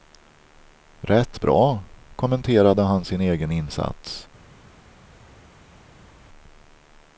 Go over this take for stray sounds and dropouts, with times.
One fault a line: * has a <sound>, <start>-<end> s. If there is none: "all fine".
all fine